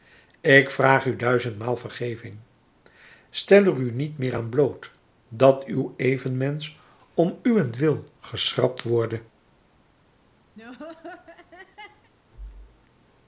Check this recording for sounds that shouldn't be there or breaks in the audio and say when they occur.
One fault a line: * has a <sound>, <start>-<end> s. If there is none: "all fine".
* has a laugh, 10.6-12.1 s